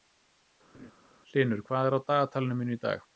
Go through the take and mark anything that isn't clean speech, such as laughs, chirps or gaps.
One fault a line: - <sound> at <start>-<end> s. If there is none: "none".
- laugh at 0.7-0.9 s